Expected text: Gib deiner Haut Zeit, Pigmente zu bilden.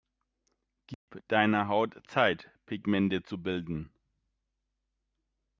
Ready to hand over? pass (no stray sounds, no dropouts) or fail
fail